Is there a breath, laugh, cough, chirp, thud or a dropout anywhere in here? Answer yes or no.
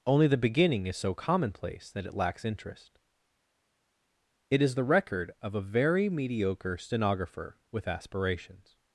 no